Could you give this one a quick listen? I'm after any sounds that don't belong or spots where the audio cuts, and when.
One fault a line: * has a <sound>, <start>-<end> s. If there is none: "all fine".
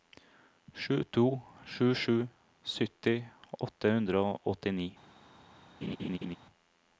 * has a laugh, 5.8-6.4 s